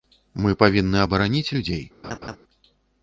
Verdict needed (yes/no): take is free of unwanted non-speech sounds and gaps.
no